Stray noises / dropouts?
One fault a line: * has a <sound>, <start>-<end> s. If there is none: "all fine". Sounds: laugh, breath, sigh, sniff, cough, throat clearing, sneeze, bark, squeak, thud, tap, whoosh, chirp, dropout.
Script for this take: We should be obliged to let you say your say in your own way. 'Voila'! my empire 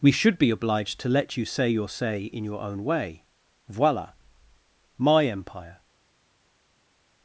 all fine